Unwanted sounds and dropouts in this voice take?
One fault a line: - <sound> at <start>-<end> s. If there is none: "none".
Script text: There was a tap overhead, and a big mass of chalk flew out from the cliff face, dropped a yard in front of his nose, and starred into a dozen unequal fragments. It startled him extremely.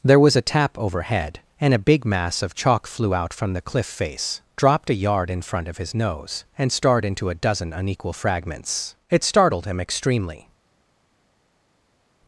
none